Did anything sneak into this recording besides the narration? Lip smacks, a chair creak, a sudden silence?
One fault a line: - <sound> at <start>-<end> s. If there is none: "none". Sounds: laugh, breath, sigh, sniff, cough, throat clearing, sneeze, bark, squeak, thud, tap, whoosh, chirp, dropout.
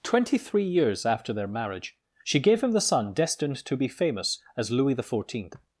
none